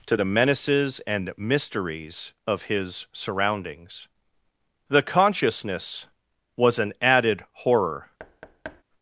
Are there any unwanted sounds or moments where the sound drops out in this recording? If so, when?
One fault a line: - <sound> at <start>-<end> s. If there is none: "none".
- thud at 8.2-8.8 s